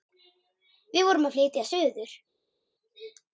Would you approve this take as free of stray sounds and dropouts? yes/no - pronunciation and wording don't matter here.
yes